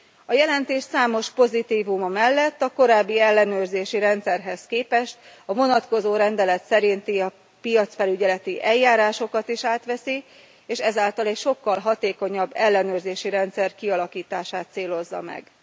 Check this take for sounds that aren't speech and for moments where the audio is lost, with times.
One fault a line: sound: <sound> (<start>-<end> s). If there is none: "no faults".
no faults